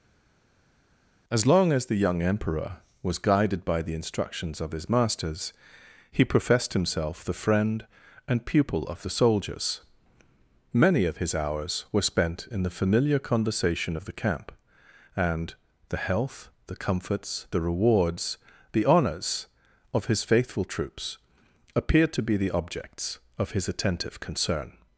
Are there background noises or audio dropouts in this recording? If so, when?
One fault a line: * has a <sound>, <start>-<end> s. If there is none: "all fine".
all fine